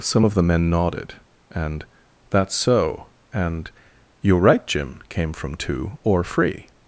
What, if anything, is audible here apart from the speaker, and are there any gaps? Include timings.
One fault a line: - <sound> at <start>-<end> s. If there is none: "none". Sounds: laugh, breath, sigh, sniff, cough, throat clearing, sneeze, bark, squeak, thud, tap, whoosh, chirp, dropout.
none